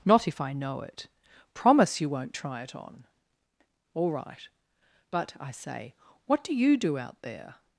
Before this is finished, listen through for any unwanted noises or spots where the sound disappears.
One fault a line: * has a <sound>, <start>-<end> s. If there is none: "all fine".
all fine